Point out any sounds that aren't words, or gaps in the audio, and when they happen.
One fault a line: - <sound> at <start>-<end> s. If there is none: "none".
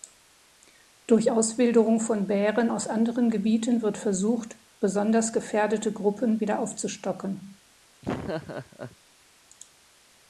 - laugh at 8.0-9.0 s